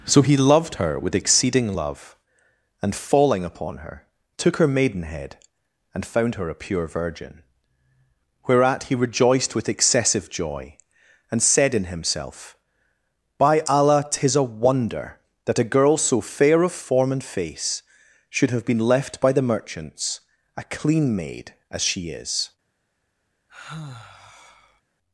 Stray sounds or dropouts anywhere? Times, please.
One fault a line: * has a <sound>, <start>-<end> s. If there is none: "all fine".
* has a sigh, 23.5-24.8 s